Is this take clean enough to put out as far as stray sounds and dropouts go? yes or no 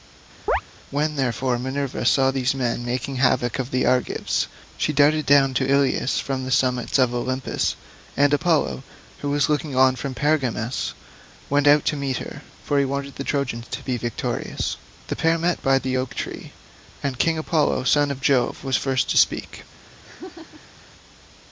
no